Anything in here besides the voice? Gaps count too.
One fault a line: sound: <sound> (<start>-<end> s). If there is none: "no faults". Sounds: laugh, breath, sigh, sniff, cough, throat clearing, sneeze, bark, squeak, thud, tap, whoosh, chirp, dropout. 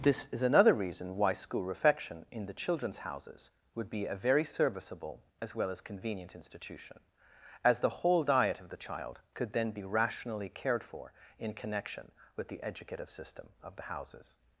no faults